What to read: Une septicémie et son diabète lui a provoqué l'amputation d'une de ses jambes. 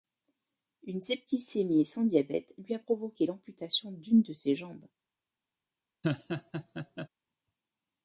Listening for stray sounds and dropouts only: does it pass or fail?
fail